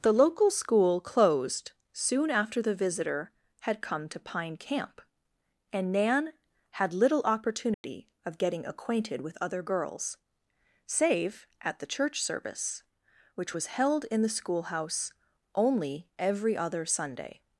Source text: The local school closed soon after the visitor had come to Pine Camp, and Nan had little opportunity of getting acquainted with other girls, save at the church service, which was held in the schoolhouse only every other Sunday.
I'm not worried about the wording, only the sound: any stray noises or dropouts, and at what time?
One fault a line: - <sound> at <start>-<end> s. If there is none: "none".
- dropout at 7.7-7.8 s